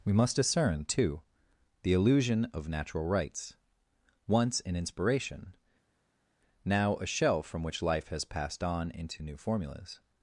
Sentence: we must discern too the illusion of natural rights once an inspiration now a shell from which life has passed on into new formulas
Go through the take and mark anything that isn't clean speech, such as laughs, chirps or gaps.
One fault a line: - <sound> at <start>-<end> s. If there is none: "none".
none